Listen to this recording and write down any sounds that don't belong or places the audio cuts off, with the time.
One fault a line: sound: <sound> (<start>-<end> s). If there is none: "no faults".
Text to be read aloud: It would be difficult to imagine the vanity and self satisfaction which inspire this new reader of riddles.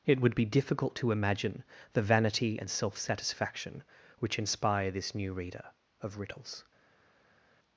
no faults